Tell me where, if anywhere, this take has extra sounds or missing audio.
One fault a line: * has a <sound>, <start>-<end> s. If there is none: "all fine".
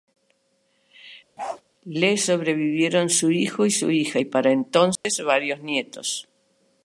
* has a bark, 1.4-1.6 s
* has a dropout, 5.0-5.0 s